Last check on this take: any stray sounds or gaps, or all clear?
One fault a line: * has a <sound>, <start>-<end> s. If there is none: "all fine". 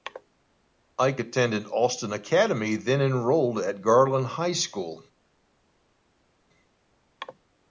all fine